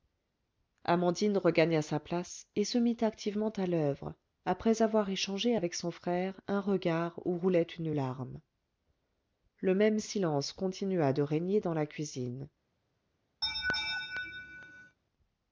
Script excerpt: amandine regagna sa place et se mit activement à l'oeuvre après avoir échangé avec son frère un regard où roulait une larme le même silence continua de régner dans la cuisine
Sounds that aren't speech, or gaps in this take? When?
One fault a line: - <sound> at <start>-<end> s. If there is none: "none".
- laugh at 13.4-15.0 s